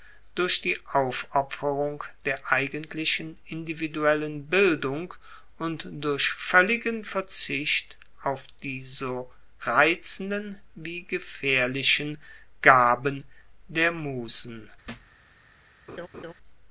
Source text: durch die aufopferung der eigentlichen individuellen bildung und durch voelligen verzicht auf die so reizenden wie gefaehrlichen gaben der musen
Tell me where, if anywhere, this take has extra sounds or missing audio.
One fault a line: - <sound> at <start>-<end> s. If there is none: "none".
- thud at 14.8-15.2 s
- laugh at 15.9-16.3 s